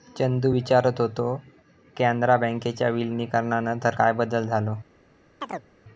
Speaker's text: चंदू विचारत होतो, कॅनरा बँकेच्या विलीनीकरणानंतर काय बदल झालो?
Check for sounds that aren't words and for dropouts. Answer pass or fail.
fail